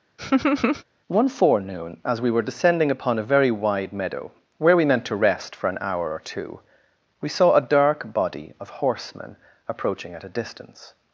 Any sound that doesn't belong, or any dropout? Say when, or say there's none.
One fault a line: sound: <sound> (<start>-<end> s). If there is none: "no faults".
sound: laugh (0.2-0.8 s)